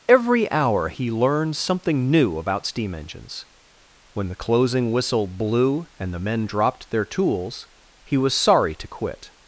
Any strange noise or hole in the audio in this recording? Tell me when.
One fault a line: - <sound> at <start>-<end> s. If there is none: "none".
none